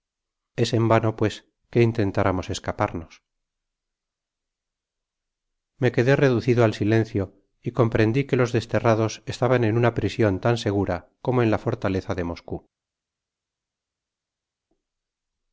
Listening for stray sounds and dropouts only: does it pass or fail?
pass